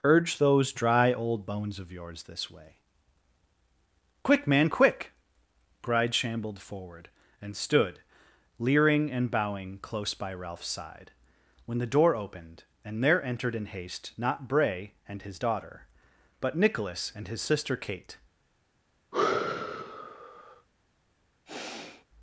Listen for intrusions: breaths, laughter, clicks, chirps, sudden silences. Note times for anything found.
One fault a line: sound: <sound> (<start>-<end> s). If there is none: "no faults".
sound: sigh (19.1-20.7 s)
sound: sigh (21.5-22.1 s)